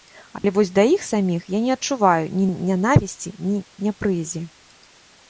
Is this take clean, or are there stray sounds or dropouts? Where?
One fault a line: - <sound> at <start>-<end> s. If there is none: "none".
- dropout at 0.4-0.4 s